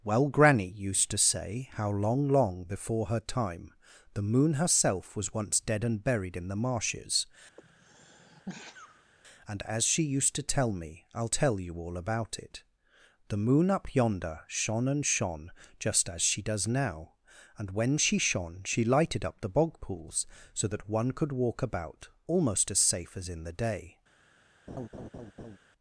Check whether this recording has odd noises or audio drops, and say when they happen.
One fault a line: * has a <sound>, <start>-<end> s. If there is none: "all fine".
* has a sneeze, 7.6-9.1 s
* has a laugh, 24.7-25.6 s